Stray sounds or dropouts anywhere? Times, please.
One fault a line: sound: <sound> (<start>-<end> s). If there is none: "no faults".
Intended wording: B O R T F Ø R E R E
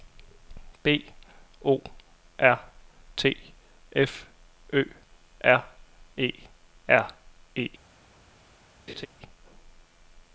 sound: laugh (8.9-9.1 s)